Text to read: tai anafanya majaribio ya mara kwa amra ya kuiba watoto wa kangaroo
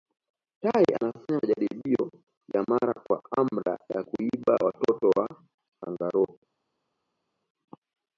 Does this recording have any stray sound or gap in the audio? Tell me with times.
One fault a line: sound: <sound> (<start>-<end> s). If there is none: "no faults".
no faults